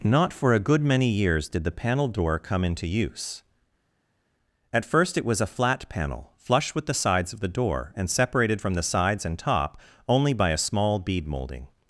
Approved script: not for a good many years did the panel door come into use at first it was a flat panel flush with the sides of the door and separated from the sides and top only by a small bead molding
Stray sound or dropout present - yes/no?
no